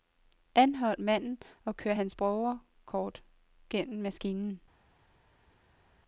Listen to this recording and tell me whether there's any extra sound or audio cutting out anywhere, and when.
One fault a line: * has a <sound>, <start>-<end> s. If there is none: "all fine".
all fine